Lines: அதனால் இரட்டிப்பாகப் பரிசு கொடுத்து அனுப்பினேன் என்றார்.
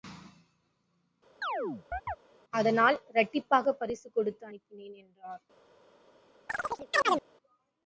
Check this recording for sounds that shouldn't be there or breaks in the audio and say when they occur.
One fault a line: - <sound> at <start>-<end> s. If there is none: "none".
- chirp at 1.4-2.2 s
- chirp at 6.5-7.3 s